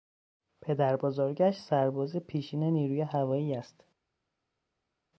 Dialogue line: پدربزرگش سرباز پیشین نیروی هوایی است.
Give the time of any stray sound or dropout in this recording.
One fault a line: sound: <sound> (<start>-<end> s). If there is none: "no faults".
no faults